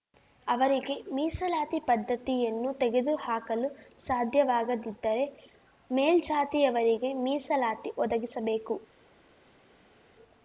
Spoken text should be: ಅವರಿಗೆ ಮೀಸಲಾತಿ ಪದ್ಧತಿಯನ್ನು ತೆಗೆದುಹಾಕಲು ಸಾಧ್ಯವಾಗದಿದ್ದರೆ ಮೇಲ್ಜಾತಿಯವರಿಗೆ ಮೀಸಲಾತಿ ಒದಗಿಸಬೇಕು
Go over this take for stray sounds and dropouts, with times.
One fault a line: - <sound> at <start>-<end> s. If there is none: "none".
none